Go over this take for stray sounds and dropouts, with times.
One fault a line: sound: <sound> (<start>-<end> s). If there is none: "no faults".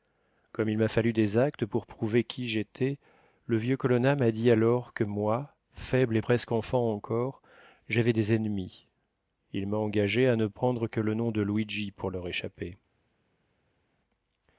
no faults